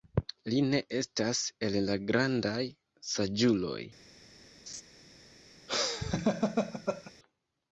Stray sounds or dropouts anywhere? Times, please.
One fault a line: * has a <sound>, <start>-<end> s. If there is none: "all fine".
* has a laugh, 4.7-4.8 s
* has a laugh, 5.7-7.1 s